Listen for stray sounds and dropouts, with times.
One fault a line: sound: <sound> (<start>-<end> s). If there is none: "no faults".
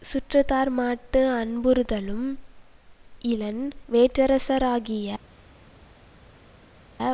no faults